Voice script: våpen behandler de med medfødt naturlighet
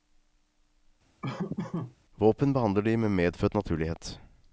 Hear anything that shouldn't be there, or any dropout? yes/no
yes